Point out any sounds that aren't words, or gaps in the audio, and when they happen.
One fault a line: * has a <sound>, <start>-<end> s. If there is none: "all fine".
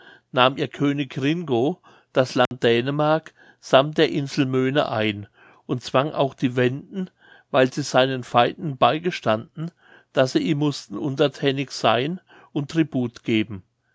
* has a dropout, 2.5-2.5 s